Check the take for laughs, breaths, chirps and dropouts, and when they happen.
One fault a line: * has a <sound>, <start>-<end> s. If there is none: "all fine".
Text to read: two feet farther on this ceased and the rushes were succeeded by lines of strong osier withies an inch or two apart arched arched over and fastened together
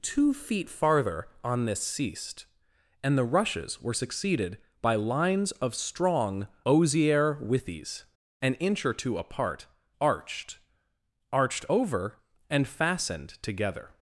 all fine